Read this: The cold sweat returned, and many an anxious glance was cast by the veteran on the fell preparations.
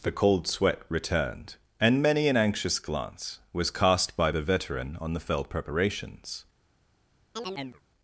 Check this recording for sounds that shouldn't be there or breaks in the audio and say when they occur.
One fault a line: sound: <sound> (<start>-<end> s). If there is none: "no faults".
sound: chirp (7.3-7.8 s)